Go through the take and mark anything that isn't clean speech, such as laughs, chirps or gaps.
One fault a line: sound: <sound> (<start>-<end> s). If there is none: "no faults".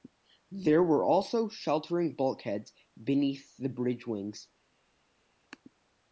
no faults